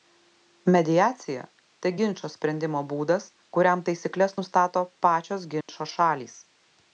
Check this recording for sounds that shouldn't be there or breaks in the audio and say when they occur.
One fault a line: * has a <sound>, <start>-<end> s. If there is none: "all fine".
* has a dropout, 5.6-5.7 s